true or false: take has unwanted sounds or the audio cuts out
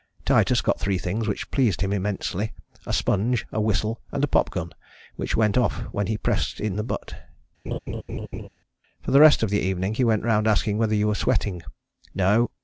true